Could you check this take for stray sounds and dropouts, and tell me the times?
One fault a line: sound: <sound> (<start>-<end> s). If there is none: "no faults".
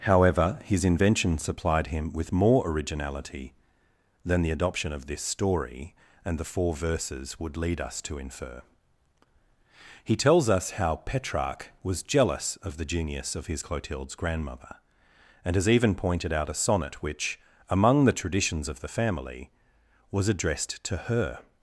no faults